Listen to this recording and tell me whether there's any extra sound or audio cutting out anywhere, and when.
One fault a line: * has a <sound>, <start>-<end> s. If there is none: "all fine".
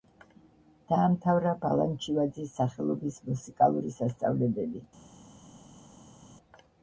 all fine